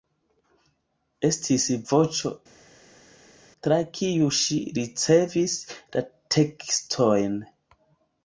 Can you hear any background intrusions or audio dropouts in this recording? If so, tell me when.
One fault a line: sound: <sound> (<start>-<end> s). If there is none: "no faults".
no faults